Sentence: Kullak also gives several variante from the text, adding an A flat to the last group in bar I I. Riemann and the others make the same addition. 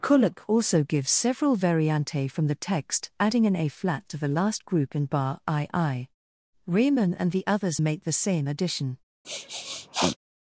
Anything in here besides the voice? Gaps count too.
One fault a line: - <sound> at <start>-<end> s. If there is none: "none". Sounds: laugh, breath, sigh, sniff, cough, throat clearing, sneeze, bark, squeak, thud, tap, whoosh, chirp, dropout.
- sniff at 9.2-10.2 s